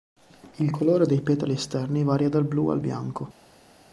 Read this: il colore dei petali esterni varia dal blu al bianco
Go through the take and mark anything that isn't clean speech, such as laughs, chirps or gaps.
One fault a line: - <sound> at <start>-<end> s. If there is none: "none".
none